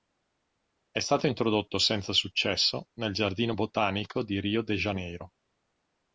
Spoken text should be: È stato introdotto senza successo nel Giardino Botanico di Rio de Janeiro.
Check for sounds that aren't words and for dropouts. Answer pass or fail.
pass